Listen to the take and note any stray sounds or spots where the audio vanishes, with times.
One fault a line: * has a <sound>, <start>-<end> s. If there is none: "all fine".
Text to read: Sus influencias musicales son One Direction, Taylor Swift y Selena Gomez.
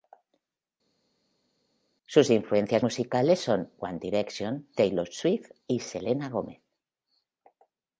all fine